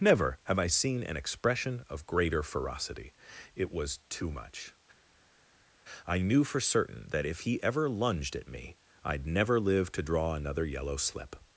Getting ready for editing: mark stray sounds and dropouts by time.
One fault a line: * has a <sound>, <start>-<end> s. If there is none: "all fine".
all fine